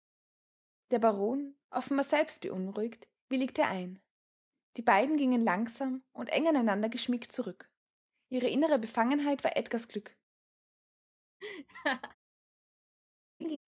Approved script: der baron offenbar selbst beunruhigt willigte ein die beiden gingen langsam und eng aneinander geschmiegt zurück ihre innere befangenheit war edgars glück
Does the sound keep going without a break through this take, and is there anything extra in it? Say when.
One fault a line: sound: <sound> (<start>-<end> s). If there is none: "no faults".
sound: laugh (11.4-12.2 s)
sound: laugh (13.4-13.6 s)